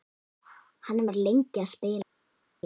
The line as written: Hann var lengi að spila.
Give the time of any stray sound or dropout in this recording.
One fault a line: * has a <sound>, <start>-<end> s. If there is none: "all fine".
all fine